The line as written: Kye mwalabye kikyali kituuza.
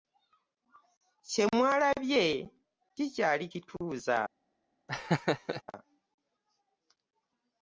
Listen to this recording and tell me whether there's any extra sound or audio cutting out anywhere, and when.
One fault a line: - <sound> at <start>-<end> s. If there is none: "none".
- laugh at 4.9-5.6 s